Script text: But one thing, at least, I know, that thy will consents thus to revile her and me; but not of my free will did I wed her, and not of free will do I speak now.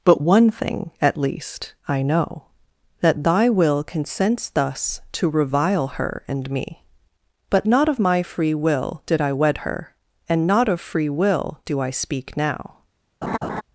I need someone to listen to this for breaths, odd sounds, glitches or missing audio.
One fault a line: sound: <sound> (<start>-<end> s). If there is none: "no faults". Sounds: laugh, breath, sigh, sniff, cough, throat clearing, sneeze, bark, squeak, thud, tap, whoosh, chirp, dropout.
sound: laugh (13.2-13.6 s)